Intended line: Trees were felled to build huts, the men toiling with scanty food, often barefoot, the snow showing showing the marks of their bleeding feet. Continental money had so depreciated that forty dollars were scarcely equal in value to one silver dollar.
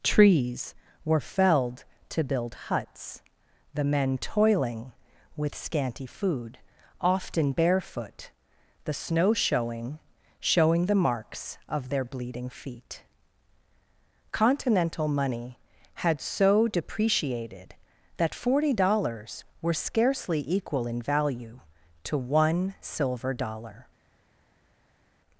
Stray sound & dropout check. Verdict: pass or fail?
pass